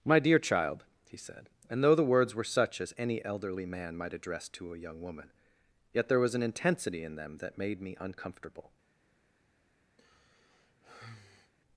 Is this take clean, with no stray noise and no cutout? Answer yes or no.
no